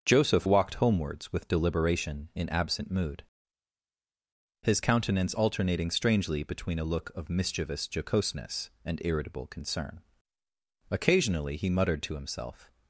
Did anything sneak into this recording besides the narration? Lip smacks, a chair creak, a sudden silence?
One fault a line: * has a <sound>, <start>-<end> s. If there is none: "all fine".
all fine